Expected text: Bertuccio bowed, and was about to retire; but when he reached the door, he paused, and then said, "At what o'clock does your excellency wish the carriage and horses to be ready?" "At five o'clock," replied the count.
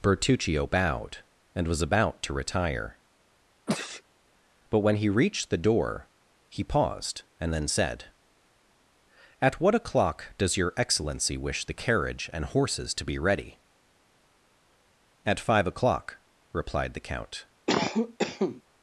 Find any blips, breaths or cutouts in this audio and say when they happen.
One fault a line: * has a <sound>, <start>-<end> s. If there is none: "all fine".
* has a sneeze, 3.7-4.0 s
* has a cough, 17.7-18.6 s